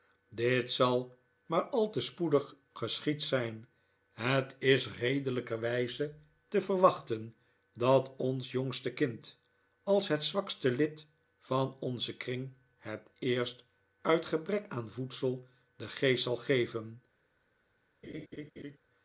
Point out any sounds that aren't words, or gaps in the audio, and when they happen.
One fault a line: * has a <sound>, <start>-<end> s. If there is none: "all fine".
* has a laugh, 18.0-18.8 s